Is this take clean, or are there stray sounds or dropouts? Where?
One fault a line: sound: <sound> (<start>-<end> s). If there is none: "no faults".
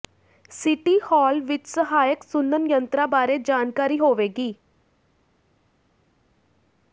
no faults